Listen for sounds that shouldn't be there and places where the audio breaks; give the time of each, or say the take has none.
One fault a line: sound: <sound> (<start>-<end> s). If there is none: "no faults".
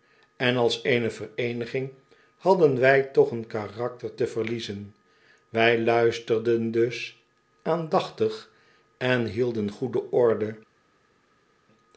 no faults